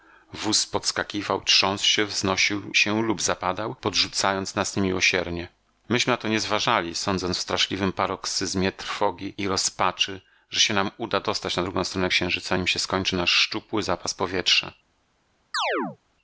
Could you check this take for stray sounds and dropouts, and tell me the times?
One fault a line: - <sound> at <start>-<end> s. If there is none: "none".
- chirp at 15.5-16.0 s